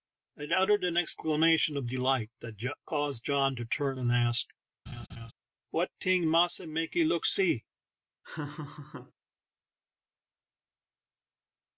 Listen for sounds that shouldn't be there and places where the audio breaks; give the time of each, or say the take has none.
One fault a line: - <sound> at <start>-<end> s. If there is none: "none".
- laugh at 4.9-5.3 s
- laugh at 8.2-9.1 s